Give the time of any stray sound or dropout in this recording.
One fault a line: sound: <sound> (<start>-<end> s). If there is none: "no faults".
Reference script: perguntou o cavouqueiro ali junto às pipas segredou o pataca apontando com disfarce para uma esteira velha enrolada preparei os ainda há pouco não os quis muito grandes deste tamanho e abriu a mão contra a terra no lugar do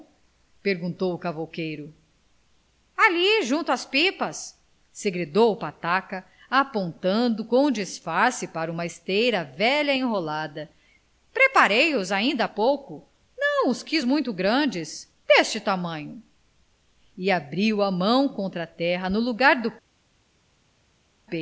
no faults